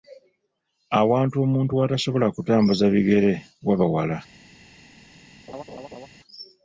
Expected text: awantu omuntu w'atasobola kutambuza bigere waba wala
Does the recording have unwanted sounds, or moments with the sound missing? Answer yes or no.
yes